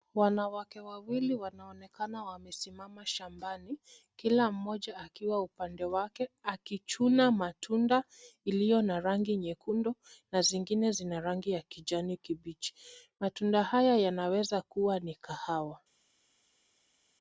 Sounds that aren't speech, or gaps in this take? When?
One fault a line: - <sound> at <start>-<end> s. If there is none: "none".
none